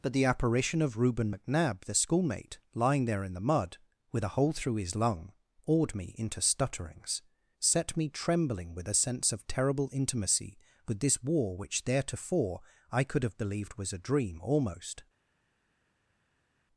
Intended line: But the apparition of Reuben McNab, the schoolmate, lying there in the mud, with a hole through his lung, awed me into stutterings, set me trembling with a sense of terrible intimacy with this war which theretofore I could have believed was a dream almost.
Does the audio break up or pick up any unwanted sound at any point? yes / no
no